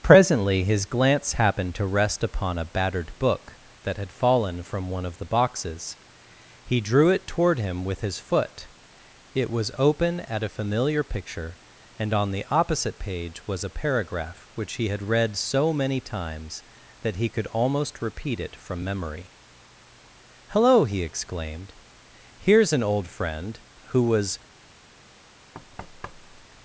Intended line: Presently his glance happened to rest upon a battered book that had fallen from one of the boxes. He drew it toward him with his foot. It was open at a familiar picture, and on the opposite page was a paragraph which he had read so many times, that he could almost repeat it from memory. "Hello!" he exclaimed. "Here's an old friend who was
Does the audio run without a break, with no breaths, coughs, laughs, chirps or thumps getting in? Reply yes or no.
no